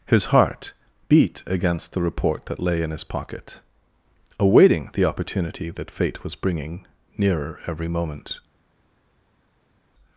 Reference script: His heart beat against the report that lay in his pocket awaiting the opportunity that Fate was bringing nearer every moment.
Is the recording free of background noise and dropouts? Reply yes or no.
yes